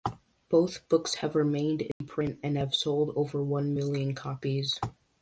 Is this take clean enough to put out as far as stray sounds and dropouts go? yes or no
no